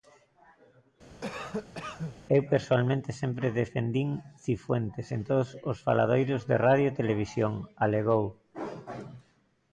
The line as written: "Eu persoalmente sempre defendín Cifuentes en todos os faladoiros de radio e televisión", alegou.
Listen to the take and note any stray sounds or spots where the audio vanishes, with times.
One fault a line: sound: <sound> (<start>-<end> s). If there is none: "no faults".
sound: cough (1.2-2.2 s)